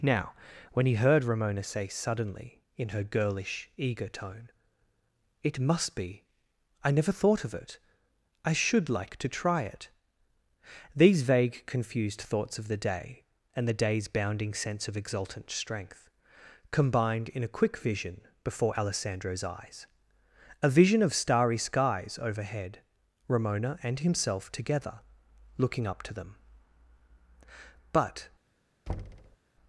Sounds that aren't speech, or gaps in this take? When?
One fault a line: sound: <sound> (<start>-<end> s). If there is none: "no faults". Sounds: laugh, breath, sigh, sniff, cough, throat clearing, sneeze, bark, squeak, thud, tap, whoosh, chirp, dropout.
sound: thud (28.9-29.4 s)